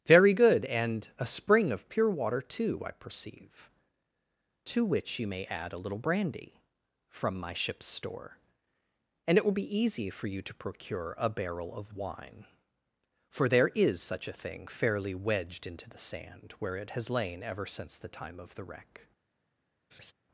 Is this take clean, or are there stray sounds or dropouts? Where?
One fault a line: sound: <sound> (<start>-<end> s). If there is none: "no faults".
sound: laugh (19.9-20.1 s)